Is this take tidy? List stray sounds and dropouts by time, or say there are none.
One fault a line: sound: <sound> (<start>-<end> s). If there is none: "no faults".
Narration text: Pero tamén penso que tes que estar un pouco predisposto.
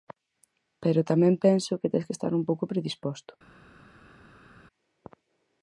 no faults